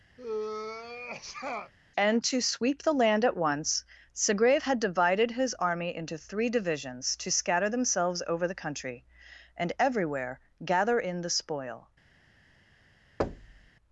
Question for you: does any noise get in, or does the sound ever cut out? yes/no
yes